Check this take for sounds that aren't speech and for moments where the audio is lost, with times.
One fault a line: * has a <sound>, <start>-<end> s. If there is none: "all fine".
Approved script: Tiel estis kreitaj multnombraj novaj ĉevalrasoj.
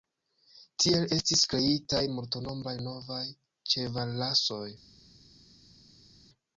all fine